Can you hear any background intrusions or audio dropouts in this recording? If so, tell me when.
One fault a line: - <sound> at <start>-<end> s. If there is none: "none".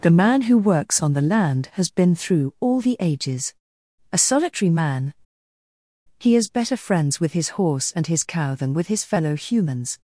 none